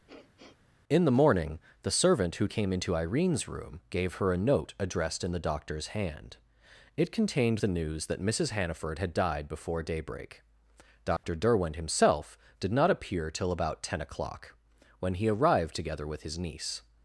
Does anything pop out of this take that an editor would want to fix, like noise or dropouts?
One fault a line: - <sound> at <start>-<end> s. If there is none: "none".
- sniff at 0.1-0.6 s
- dropout at 11.2-11.2 s